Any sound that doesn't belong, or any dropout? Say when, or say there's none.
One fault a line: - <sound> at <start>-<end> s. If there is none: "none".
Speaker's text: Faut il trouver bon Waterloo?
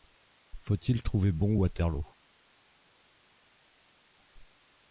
none